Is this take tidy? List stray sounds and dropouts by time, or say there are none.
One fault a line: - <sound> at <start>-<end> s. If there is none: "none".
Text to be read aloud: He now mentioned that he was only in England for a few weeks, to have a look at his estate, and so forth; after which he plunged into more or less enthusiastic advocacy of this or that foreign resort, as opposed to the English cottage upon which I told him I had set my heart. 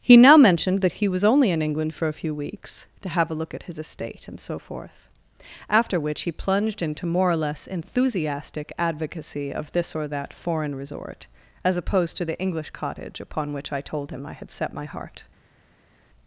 none